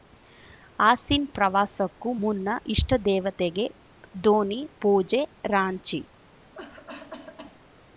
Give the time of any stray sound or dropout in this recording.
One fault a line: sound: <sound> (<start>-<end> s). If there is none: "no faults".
sound: cough (6.5-7.6 s)